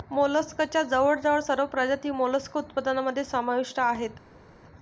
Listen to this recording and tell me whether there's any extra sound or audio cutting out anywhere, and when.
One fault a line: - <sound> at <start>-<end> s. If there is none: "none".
none